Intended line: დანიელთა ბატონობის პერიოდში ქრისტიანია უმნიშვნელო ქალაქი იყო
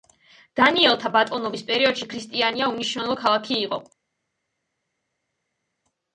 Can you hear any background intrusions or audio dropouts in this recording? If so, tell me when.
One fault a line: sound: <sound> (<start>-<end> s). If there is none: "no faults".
no faults